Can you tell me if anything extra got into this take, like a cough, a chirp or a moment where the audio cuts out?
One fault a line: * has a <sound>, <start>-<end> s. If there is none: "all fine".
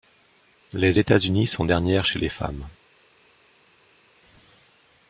all fine